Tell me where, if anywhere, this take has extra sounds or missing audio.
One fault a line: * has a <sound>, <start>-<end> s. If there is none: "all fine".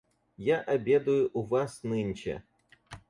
all fine